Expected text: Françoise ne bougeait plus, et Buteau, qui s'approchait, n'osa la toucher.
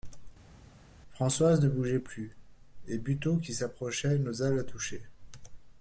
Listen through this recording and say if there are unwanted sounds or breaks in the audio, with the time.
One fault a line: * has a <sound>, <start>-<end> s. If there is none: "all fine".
all fine